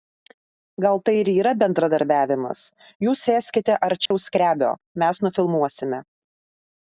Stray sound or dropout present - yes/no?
yes